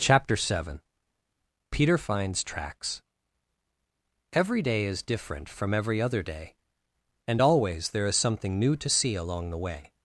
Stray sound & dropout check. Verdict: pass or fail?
pass